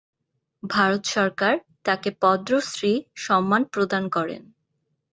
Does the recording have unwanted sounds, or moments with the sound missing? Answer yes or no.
no